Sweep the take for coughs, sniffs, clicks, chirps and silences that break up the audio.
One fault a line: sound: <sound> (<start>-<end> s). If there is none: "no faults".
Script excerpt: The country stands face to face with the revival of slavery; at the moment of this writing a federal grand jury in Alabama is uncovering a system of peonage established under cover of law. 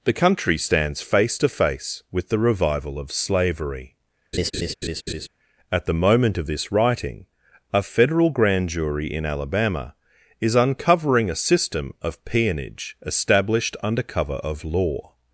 sound: laugh (4.3-5.3 s)